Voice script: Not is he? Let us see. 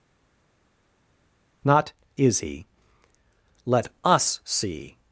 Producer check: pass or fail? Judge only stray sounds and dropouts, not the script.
pass